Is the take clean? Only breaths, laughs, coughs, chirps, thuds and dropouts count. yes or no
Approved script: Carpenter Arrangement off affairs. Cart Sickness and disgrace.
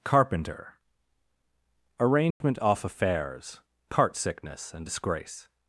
no